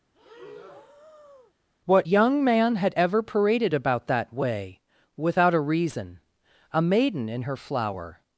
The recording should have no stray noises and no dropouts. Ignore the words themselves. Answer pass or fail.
fail